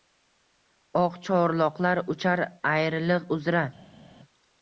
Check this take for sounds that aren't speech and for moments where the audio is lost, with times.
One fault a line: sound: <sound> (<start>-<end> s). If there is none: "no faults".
no faults